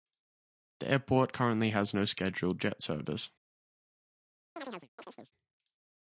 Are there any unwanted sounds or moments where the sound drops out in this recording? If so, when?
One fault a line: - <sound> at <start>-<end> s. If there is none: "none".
- chirp at 4.6-5.3 s